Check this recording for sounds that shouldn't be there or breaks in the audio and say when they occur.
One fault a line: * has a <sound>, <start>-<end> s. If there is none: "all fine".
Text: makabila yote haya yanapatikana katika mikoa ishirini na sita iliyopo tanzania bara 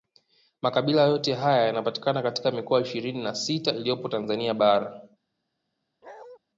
* has a bark, 6.0-6.4 s